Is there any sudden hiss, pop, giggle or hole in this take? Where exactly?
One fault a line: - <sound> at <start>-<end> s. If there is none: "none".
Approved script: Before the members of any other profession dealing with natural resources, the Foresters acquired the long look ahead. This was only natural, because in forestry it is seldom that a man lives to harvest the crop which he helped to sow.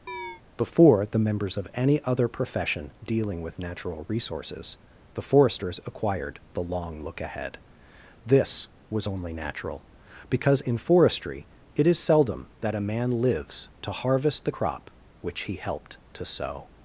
- chirp at 0.1-0.4 s